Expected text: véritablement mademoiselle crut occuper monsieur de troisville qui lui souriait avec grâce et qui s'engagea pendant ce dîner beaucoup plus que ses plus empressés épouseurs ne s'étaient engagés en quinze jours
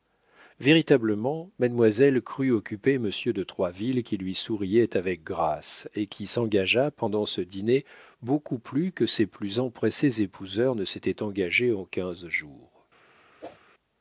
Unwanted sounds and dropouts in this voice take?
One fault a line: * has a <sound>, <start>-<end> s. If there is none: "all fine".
* has a whoosh, 13.4-13.6 s